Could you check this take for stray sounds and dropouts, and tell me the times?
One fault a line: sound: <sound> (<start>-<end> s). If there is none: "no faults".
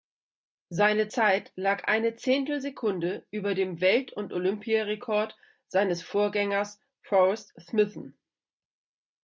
no faults